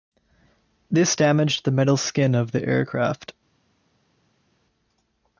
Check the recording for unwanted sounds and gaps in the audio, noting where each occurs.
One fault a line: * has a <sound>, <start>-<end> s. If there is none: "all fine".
all fine